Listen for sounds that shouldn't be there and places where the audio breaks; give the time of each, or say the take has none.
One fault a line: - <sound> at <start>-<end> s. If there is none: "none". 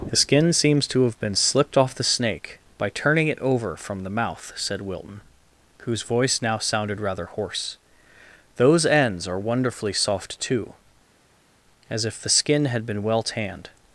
none